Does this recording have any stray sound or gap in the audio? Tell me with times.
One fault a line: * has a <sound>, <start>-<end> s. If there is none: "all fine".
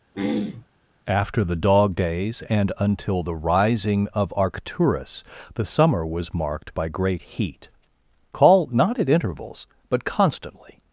* has a throat clearing, 0.1-0.7 s